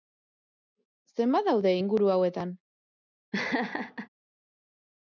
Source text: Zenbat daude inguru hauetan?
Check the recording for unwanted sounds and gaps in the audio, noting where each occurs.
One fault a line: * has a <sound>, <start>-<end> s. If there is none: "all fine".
* has a laugh, 3.3-4.1 s